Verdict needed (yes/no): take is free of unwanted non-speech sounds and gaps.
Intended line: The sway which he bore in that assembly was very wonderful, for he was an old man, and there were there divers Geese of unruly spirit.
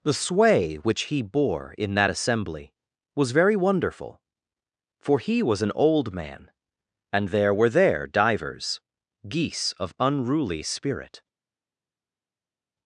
yes